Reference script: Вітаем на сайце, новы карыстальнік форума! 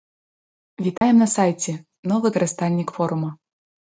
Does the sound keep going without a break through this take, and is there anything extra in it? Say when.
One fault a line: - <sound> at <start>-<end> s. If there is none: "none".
- dropout at 1.0-1.0 s